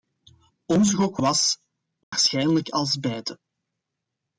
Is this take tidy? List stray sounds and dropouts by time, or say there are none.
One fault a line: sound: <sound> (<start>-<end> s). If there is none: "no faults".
sound: dropout (2.0-2.1 s)